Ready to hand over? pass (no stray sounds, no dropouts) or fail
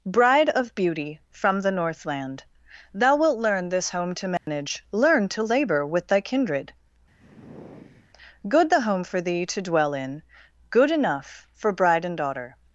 fail